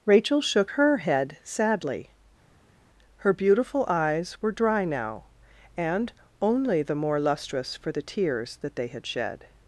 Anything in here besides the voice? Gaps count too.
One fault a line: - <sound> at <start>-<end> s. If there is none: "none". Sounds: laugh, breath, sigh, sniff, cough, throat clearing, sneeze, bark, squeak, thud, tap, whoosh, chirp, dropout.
none